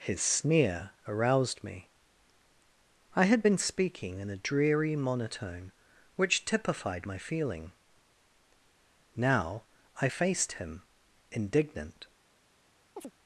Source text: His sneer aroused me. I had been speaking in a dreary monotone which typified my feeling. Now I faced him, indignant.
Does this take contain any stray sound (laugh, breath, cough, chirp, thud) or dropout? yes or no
yes